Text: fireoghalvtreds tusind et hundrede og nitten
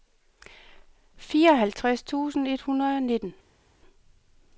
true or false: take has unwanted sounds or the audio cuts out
false